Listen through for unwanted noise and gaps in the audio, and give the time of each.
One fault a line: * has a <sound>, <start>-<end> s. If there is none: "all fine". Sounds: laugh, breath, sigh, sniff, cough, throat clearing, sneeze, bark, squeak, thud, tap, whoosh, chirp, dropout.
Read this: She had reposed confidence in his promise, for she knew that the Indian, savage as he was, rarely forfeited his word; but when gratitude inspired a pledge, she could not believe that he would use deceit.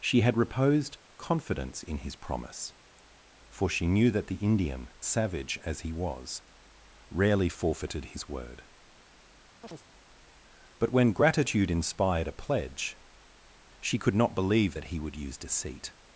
* has a chirp, 9.6-9.8 s